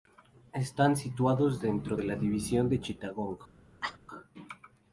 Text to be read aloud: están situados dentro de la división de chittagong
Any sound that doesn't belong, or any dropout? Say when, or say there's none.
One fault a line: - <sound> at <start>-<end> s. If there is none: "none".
- cough at 3.8-4.0 s